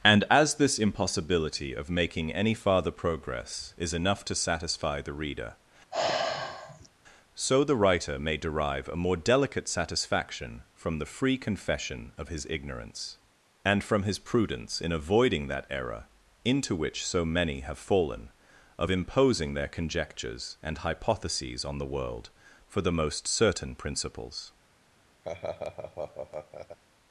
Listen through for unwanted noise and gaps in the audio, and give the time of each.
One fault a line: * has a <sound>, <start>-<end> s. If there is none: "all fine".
* has a sigh, 5.9-6.9 s
* has a laugh, 25.2-26.8 s